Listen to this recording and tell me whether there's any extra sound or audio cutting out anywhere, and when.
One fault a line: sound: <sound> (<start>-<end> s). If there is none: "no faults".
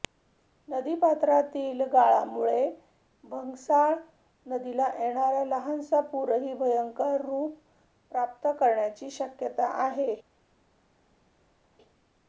no faults